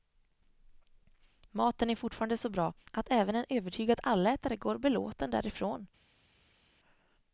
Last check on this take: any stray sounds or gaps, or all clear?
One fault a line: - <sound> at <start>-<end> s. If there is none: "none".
none